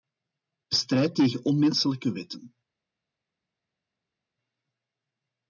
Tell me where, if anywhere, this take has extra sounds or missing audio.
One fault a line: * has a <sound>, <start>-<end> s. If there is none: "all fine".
all fine